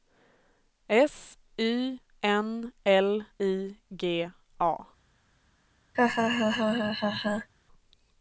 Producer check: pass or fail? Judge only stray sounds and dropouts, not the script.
fail